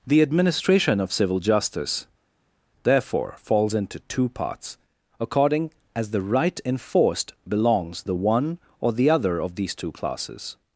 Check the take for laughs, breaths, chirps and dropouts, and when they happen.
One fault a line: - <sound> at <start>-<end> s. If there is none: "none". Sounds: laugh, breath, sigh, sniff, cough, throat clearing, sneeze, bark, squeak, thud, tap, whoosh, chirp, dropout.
none